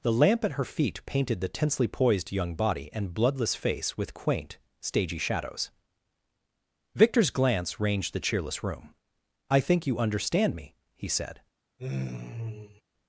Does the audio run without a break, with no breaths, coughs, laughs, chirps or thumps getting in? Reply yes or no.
no